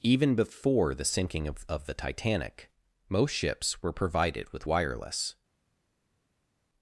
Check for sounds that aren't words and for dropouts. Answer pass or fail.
pass